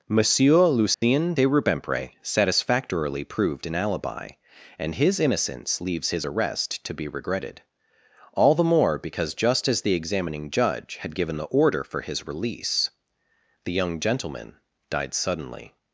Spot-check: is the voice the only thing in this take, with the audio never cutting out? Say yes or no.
no